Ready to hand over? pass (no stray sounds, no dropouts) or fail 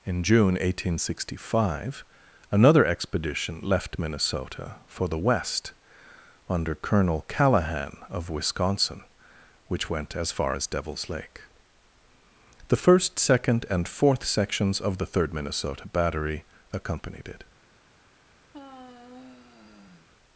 fail